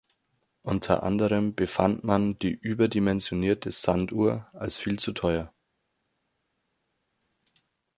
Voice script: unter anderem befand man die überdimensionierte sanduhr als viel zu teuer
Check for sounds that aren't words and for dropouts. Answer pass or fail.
pass